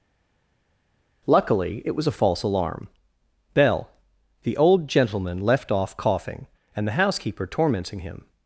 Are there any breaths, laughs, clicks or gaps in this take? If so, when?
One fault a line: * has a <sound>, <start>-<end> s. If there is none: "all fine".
all fine